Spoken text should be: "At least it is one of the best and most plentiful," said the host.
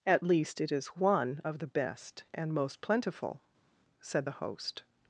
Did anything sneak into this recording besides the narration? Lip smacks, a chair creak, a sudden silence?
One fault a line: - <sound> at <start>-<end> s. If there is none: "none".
none